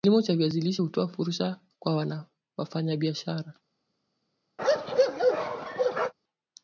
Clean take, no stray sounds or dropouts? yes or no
no